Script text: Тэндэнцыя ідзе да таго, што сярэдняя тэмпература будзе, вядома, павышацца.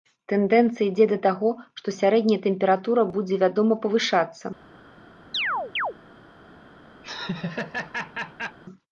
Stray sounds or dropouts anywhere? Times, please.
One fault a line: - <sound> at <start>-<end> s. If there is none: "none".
- chirp at 5.3-5.9 s
- laugh at 7.0-8.6 s